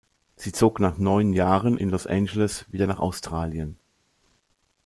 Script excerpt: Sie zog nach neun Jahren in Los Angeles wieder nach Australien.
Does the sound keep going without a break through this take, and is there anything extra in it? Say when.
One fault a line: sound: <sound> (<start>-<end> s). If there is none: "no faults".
no faults